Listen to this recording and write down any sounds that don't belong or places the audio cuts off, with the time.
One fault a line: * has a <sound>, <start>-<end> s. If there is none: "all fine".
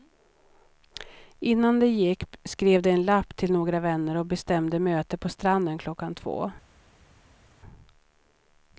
all fine